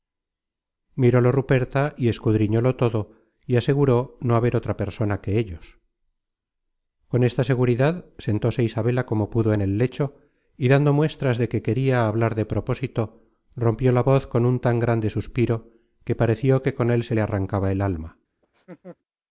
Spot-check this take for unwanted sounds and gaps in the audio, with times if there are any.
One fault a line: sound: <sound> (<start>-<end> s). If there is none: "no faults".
sound: laugh (18.4-19.0 s)